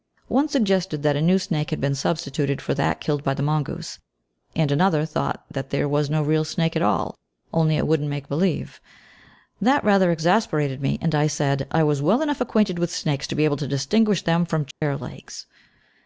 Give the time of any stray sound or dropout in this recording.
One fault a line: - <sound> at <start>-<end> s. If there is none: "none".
- dropout at 14.7-14.8 s